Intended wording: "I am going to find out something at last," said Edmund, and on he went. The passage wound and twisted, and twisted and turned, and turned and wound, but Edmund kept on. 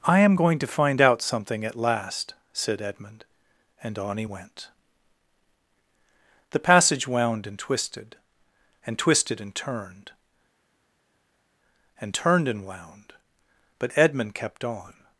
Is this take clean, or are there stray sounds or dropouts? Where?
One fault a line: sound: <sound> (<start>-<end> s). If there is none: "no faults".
no faults